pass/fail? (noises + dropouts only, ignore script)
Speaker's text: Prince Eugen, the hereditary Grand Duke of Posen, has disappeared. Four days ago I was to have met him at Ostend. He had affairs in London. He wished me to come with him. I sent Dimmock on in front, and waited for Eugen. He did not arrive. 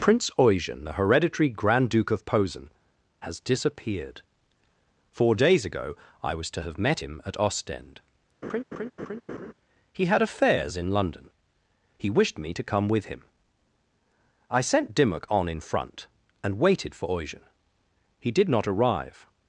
fail